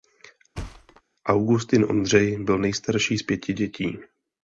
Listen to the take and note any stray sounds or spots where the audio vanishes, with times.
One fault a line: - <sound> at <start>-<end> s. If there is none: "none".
- thud at 0.5-1.0 s